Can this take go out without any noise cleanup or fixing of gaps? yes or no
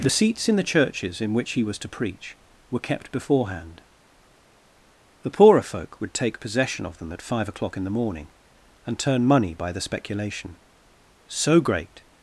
yes